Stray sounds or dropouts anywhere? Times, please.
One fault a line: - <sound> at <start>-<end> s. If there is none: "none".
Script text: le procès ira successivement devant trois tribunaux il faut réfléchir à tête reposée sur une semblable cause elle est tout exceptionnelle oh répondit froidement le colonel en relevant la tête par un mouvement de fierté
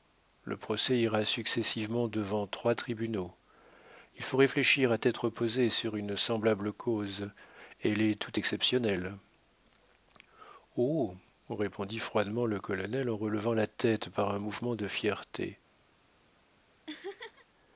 - laugh at 16.9-17.5 s